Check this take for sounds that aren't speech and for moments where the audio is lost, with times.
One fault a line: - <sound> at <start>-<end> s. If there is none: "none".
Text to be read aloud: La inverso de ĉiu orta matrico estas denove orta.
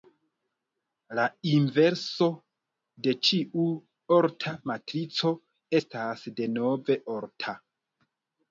none